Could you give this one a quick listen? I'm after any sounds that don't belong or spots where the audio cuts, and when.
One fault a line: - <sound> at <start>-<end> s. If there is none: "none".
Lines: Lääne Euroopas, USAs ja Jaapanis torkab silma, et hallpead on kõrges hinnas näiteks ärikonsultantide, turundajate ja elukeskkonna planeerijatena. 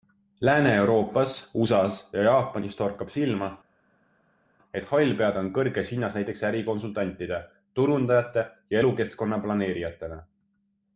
none